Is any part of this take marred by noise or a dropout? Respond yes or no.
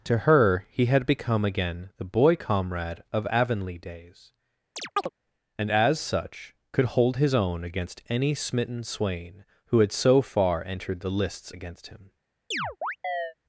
yes